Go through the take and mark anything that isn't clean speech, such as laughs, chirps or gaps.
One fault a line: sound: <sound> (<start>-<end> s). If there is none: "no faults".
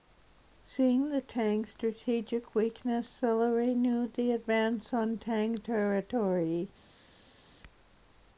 no faults